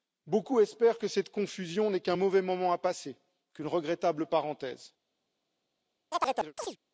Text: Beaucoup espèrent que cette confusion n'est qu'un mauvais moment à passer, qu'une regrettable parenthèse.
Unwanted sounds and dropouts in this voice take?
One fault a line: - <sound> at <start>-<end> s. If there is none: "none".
- chirp at 6.1-6.8 s